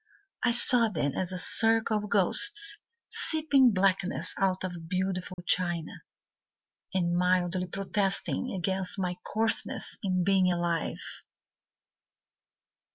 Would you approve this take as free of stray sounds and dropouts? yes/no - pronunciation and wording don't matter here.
no